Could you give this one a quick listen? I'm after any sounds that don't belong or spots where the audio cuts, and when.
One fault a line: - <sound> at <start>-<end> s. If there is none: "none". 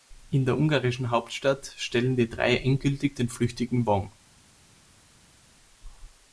none